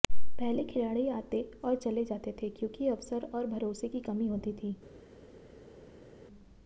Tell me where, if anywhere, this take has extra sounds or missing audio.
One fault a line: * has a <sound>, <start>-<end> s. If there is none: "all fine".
all fine